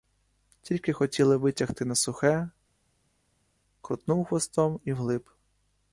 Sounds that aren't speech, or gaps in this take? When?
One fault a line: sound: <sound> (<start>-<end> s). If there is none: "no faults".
no faults